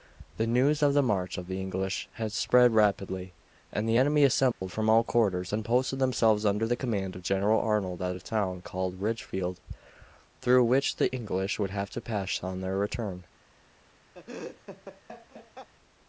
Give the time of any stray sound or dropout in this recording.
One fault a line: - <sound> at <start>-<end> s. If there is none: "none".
- dropout at 4.5-4.6 s
- laugh at 14.1-15.7 s